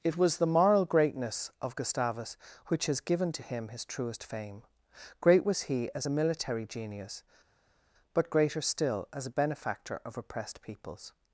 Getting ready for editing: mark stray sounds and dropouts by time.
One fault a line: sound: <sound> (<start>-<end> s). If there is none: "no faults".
no faults